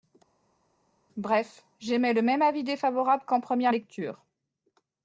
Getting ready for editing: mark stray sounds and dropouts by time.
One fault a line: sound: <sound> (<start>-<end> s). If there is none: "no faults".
no faults